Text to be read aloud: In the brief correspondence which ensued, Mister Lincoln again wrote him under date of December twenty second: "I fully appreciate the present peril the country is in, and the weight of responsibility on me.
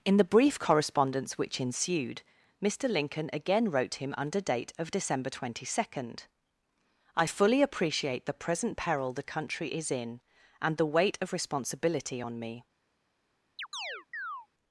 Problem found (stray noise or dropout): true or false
true